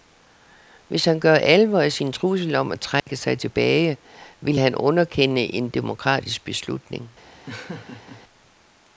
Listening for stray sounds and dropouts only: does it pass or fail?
fail